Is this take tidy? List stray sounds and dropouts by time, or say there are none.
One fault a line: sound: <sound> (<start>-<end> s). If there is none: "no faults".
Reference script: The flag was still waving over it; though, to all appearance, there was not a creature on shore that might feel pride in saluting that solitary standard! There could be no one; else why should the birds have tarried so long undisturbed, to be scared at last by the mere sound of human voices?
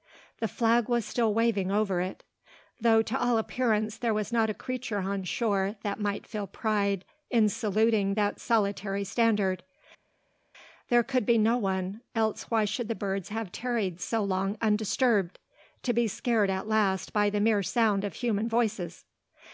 no faults